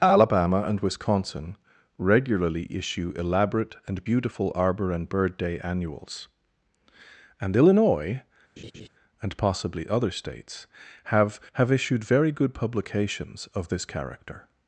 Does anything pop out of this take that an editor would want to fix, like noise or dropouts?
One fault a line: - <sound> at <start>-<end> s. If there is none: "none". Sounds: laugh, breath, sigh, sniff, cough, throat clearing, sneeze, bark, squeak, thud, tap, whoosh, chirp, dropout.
- laugh at 8.6-8.9 s